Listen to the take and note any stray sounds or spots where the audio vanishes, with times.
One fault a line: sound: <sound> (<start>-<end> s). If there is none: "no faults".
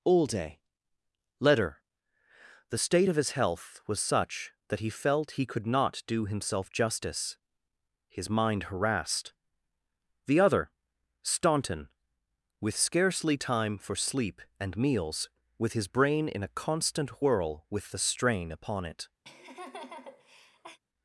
sound: laugh (19.2-20.8 s)